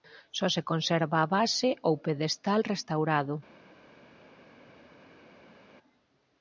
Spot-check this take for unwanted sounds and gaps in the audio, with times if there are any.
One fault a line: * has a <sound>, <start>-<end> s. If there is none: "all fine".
all fine